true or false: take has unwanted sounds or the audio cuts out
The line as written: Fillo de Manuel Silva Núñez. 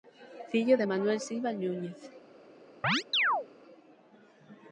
true